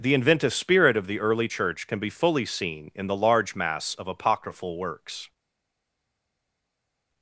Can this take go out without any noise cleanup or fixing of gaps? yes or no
yes